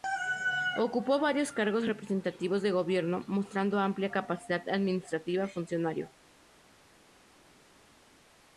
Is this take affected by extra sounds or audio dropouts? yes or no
no